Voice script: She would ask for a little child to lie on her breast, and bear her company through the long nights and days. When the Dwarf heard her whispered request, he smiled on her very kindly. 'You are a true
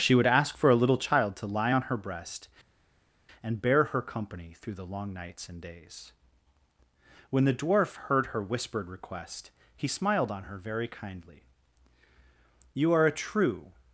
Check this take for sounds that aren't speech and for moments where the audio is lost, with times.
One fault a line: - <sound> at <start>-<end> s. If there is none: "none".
none